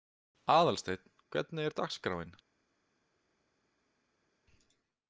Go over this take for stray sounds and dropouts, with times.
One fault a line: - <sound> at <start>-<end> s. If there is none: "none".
none